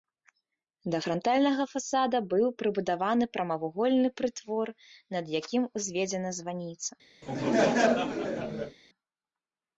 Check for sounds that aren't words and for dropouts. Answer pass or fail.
fail